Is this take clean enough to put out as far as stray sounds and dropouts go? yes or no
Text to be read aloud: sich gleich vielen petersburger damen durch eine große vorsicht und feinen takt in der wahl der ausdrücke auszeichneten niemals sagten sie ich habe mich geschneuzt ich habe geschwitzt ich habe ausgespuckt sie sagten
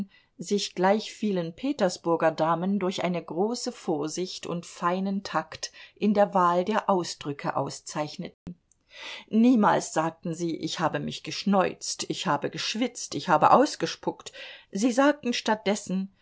no